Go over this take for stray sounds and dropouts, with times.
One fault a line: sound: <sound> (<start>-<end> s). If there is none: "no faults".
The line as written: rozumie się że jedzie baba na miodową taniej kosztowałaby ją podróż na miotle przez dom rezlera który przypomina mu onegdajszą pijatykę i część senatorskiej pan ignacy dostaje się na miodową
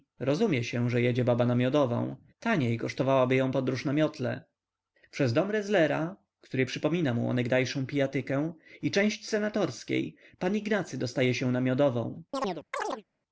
sound: chirp (12.3-13.0 s)